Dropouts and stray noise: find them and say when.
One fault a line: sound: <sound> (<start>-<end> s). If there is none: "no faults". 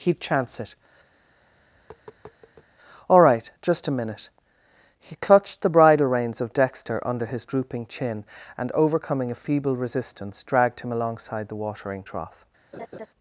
sound: tap (1.2-2.7 s)
sound: laugh (12.7-13.1 s)